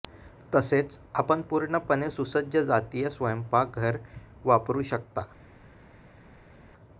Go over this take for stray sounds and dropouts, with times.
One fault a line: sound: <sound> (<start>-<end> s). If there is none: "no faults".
no faults